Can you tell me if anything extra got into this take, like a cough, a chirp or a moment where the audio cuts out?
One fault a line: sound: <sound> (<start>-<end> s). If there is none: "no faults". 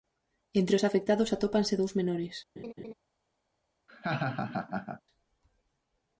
sound: laugh (2.6-2.9 s)
sound: laugh (3.9-5.0 s)